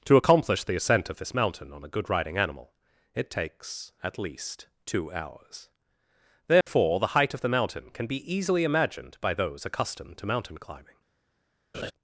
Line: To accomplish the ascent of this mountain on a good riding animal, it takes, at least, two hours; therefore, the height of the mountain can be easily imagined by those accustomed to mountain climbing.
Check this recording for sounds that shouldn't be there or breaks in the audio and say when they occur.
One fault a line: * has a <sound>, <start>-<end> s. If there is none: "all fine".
* has a dropout, 6.6-6.7 s
* has a laugh, 11.7-11.9 s